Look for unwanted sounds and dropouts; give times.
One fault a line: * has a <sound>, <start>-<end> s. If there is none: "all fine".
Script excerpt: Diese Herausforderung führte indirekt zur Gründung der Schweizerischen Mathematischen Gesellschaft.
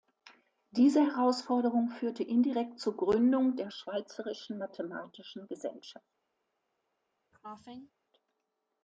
* has a cough, 7.3-7.9 s